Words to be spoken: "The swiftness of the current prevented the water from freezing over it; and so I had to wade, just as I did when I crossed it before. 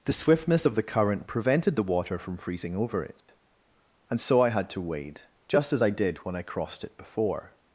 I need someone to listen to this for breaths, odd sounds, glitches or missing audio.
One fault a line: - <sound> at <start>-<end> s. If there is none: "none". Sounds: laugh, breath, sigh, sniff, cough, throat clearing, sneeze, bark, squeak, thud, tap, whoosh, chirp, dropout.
- dropout at 3.2-3.3 s